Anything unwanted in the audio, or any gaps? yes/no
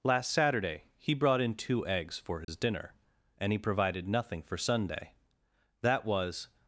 yes